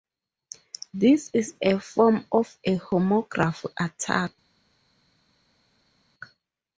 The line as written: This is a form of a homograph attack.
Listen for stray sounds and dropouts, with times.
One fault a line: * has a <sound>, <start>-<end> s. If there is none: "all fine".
all fine